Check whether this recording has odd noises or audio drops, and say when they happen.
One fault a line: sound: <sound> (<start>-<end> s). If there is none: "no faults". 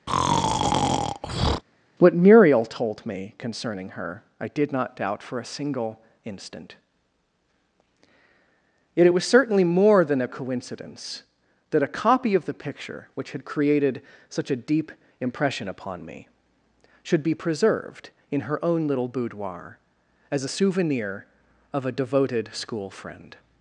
sound: breath (0.1-1.6 s)